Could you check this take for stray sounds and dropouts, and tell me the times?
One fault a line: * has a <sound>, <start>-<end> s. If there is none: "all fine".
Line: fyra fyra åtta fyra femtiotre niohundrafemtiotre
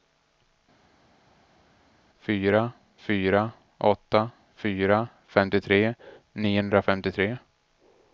all fine